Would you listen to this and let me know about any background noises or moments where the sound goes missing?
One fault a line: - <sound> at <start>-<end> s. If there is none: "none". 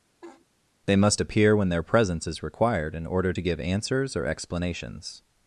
- laugh at 0.2-0.5 s